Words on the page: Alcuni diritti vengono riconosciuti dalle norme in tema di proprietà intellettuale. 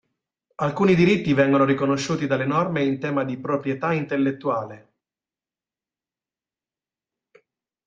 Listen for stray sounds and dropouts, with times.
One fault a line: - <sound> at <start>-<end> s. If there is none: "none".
none